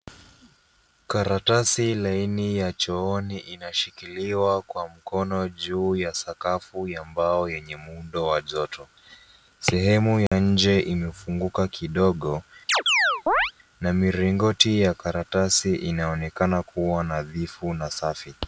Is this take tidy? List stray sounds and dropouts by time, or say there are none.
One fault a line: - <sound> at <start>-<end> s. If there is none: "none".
- dropout at 10.3-10.3 s
- chirp at 12.7-13.5 s